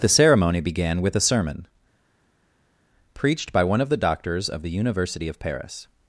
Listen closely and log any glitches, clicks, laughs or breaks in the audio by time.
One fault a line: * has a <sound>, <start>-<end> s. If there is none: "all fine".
all fine